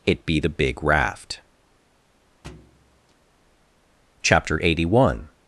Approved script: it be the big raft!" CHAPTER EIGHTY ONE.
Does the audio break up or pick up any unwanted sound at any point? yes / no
yes